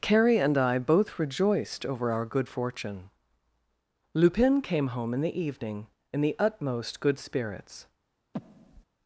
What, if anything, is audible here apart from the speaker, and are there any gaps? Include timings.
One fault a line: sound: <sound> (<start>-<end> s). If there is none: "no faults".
sound: breath (8.3-8.8 s)